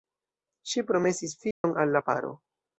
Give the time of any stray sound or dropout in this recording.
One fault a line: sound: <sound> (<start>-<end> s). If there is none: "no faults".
sound: dropout (1.5-1.6 s)